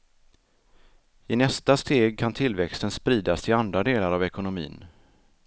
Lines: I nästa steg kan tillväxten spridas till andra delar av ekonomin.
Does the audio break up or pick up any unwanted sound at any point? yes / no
no